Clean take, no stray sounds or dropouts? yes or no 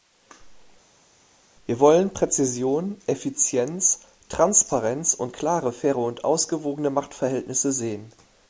yes